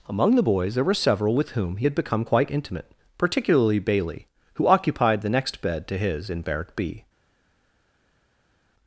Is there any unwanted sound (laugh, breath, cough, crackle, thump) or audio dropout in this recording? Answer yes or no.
no